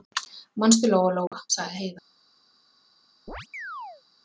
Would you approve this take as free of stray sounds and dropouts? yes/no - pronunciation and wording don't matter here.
no